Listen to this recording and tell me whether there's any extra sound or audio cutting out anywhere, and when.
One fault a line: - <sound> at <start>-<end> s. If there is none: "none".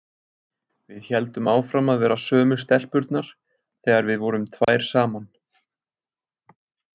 - dropout at 4.6-4.7 s